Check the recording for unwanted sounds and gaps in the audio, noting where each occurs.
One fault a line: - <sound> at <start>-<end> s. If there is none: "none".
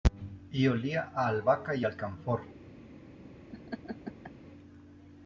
- laugh at 3.5-4.3 s